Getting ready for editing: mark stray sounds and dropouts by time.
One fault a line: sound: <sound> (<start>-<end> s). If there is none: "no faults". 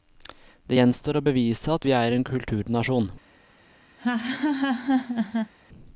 sound: laugh (4.0-5.5 s)